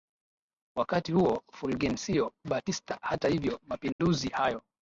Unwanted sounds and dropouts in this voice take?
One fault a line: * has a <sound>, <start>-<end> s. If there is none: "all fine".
* has a dropout, 3.9-4.0 s